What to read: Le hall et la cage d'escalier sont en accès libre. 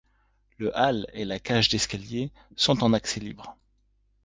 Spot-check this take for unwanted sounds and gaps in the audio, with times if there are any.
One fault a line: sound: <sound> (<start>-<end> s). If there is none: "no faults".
no faults